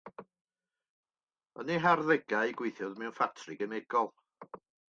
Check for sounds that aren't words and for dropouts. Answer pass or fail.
pass